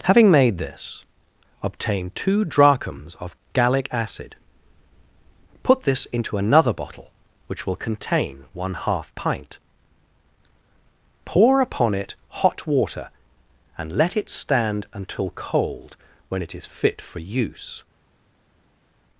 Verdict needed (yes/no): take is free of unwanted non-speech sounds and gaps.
yes